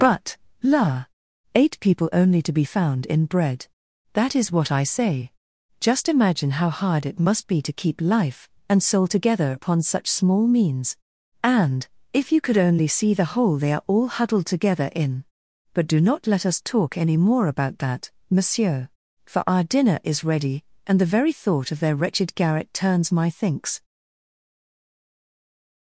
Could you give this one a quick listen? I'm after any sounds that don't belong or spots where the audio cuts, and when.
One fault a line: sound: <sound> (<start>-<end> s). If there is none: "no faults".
no faults